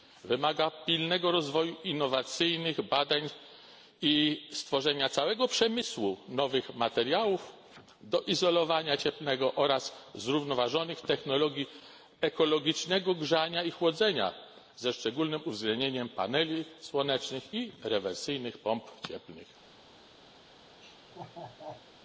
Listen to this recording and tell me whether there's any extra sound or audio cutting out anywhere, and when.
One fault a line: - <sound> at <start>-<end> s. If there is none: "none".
- laugh at 20.8-21.9 s